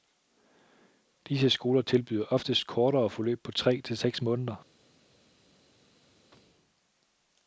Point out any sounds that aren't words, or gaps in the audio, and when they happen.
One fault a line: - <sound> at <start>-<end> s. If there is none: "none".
none